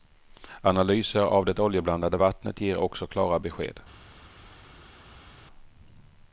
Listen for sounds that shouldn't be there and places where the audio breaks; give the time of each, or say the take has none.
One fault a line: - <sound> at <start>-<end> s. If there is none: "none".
none